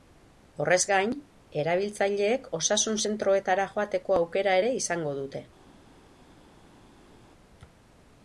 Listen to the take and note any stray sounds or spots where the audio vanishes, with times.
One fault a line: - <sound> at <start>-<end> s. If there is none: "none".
none